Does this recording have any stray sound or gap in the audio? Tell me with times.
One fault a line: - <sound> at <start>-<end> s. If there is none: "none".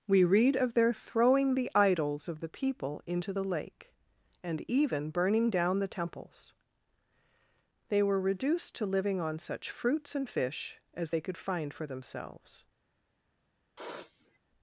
- sniff at 13.8-14.4 s